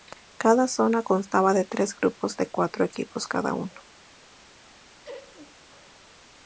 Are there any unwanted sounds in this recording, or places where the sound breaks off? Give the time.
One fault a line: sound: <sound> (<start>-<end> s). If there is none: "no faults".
sound: laugh (5.0-5.6 s)